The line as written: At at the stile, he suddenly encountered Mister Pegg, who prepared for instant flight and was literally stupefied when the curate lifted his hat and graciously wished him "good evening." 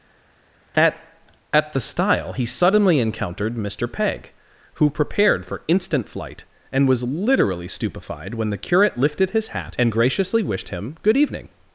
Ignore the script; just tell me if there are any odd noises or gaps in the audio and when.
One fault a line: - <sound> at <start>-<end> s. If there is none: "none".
none